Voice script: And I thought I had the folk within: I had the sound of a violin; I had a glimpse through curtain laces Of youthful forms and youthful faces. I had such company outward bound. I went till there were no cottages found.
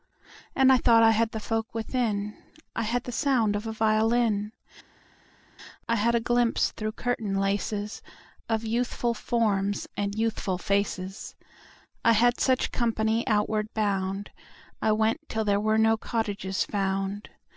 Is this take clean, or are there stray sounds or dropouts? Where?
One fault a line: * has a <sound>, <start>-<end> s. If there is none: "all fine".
all fine